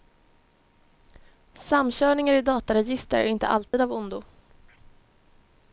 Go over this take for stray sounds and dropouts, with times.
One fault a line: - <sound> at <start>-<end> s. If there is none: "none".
- dropout at 3.7-3.7 s